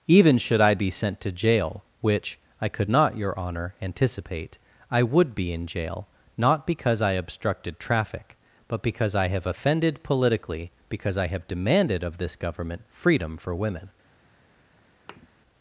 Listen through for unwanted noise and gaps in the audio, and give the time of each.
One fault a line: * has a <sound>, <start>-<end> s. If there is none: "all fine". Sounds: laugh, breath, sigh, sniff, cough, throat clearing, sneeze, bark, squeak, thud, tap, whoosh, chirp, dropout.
* has a thud, 15.1-15.3 s